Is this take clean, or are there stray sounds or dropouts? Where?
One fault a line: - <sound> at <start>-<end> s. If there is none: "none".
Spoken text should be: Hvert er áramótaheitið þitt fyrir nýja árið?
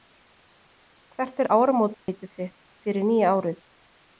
- dropout at 1.9-2.1 s